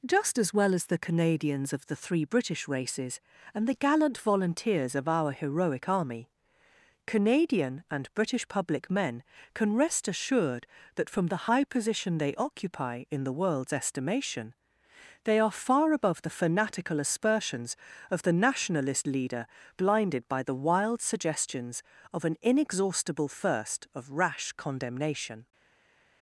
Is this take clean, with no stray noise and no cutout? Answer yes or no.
yes